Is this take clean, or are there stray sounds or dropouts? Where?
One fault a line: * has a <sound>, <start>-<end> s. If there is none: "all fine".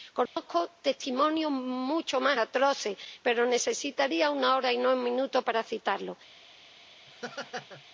* has a dropout, 0.3-0.4 s
* has a laugh, 7.1-7.8 s